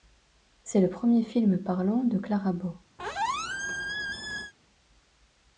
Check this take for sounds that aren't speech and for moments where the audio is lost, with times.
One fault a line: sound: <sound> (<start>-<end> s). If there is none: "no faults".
sound: squeak (3.0-4.5 s)